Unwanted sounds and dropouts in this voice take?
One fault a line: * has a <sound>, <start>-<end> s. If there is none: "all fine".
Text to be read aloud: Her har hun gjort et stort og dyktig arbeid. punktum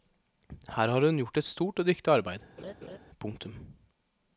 * has a laugh, 2.6-3.0 s